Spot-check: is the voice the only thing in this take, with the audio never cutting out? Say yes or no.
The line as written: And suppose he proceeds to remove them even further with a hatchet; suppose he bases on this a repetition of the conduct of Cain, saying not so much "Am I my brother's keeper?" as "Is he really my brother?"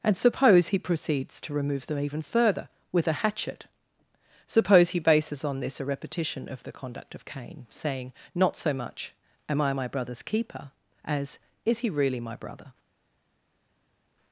yes